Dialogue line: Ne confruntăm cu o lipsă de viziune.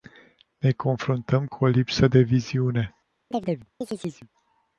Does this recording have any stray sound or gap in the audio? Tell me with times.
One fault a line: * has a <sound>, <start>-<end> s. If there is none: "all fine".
* has a chirp, 3.3-4.3 s